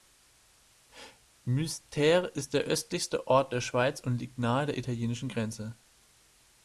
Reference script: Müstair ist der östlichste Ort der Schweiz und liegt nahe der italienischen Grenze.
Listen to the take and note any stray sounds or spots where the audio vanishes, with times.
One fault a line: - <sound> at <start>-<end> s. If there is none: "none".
none